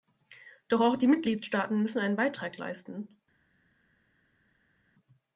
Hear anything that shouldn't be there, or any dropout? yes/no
no